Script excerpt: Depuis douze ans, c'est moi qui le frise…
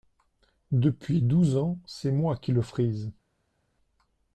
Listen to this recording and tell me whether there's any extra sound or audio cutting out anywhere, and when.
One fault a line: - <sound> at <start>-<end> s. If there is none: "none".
none